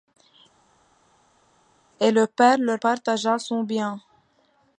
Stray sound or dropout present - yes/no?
no